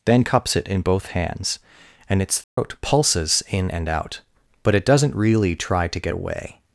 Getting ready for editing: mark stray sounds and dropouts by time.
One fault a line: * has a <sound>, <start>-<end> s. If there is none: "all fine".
* has a dropout, 2.4-2.6 s